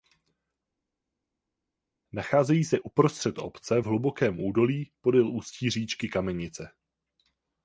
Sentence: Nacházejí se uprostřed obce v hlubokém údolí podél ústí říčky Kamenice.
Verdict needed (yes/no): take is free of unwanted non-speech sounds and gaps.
yes